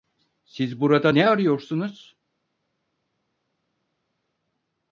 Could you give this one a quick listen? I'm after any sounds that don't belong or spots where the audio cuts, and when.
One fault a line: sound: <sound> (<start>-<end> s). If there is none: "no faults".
no faults